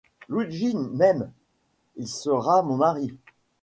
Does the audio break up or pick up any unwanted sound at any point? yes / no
no